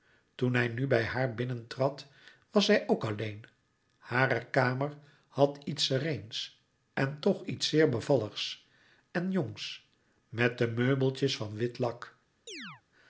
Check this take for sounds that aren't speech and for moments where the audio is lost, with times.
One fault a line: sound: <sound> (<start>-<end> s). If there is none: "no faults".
sound: chirp (12.5-12.8 s)